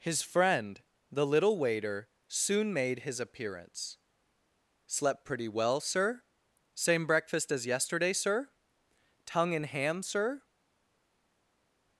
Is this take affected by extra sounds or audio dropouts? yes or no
no